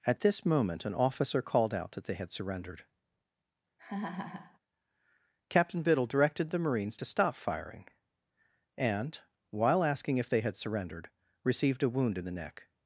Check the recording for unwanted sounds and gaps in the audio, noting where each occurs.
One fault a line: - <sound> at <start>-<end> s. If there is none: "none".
- laugh at 3.8-4.6 s